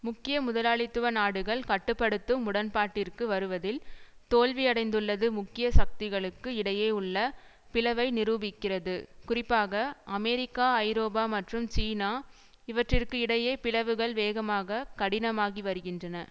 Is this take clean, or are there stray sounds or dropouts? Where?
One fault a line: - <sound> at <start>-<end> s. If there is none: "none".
none